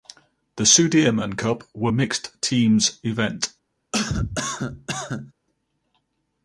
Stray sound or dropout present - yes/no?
yes